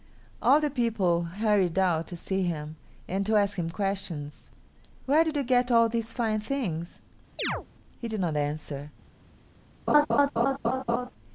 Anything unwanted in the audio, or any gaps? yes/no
yes